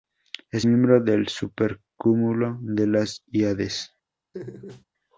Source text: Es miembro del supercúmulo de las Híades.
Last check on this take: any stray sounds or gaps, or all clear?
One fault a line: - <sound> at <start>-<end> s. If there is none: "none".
- laugh at 4.3-4.8 s